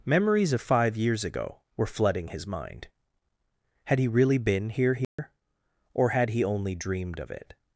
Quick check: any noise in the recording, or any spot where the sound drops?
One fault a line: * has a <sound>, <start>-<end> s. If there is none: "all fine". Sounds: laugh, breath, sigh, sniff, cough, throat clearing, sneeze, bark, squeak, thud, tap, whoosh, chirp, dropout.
* has a dropout, 5.0-5.2 s